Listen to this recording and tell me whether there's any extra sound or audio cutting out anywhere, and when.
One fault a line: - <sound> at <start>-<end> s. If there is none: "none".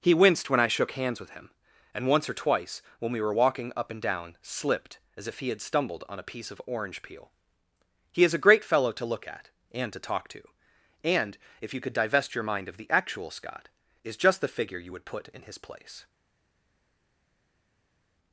none